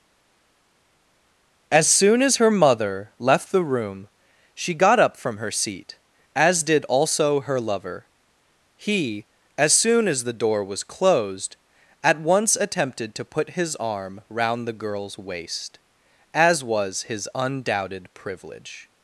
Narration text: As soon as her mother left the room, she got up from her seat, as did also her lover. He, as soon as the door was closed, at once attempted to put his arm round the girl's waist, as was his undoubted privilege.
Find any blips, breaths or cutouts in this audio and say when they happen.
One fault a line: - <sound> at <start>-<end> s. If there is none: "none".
none